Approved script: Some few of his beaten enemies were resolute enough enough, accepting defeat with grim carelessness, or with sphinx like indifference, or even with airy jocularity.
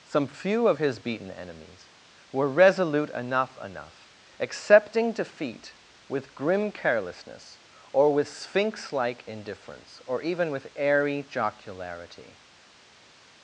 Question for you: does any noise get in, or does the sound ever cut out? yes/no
no